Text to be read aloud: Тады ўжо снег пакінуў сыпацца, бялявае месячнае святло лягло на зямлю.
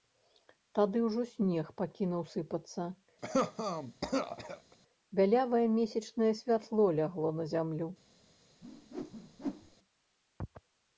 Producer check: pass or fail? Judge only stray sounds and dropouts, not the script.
fail